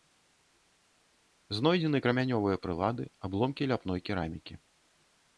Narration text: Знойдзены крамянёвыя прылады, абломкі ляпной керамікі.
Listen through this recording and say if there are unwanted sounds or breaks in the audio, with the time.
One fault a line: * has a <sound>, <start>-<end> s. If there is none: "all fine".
all fine